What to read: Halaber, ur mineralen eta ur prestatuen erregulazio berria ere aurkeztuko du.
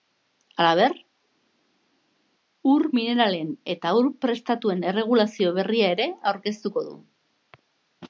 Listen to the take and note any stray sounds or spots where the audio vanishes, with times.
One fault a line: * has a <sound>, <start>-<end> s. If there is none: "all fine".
all fine